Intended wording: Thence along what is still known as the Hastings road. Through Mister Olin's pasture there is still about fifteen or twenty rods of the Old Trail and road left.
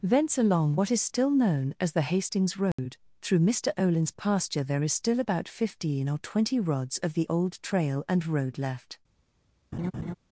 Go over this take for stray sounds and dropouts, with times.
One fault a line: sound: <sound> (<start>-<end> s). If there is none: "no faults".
sound: dropout (2.7-2.8 s)
sound: laugh (9.7-10.1 s)